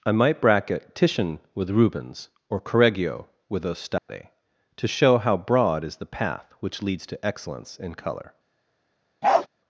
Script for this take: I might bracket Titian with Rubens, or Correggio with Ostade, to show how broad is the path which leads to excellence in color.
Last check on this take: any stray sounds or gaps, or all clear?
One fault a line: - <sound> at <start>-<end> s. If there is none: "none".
- dropout at 4.0-4.1 s
- bark at 9.2-9.5 s